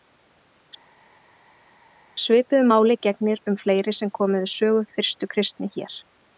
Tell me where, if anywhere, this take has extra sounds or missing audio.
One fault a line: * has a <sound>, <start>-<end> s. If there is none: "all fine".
all fine